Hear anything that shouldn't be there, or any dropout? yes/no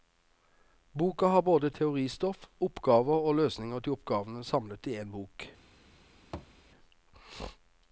yes